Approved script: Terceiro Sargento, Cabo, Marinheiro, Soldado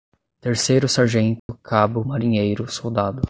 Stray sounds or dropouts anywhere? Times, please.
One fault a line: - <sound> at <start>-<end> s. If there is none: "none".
- dropout at 1.4-1.5 s